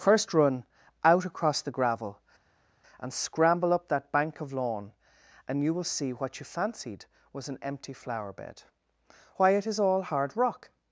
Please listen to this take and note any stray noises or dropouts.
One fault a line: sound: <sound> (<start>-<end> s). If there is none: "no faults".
no faults